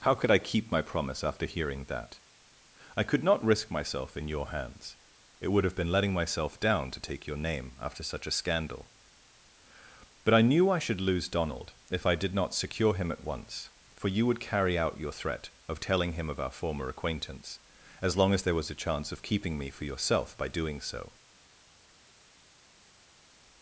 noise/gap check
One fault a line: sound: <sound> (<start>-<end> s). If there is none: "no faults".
no faults